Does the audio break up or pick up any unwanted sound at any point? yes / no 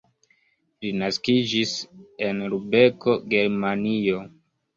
no